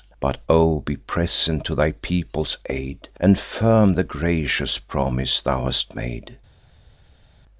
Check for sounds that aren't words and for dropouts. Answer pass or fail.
pass